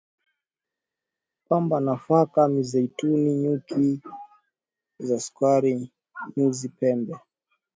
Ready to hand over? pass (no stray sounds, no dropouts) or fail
pass